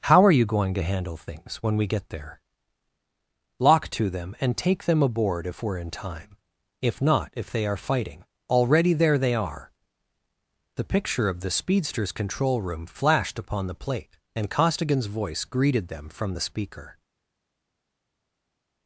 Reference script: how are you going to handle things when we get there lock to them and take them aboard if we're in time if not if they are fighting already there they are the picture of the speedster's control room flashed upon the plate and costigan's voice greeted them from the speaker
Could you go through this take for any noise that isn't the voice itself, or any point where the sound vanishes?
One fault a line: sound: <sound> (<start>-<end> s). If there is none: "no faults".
no faults